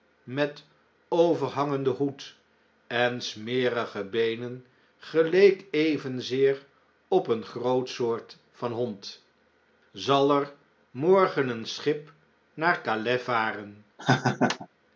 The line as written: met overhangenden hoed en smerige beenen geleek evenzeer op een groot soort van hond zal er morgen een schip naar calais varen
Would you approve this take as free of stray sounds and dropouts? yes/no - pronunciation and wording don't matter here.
no